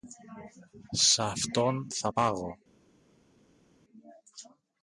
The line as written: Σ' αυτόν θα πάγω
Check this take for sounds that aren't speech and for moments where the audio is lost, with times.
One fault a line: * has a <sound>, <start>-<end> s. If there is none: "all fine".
all fine